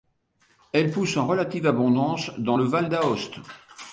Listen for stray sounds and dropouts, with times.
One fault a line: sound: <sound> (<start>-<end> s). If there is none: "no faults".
no faults